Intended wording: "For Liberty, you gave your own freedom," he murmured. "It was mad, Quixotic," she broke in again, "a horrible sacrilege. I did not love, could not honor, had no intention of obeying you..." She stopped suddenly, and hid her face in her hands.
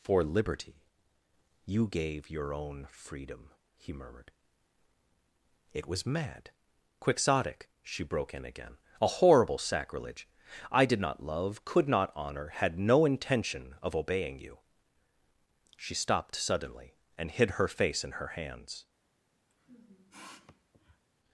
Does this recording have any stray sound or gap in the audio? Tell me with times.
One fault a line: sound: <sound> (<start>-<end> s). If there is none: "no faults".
sound: sniff (19.5-21.0 s)